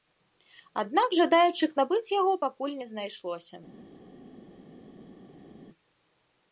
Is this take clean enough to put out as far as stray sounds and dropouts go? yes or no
yes